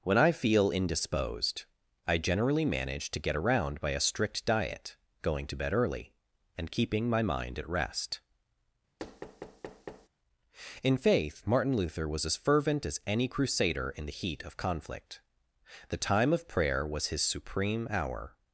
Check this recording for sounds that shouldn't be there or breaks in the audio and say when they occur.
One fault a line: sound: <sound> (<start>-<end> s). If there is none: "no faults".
sound: thud (9.0-10.1 s)